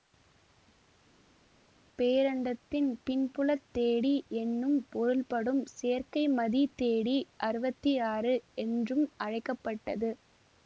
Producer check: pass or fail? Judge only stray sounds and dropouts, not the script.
pass